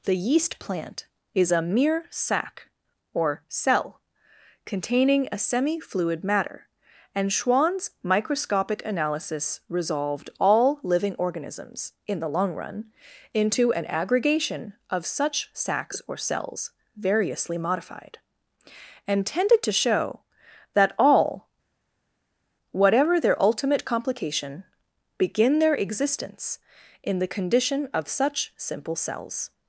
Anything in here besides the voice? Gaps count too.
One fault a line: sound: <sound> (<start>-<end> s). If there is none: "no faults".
no faults